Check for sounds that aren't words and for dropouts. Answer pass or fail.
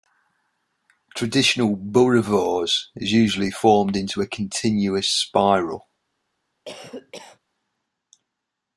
fail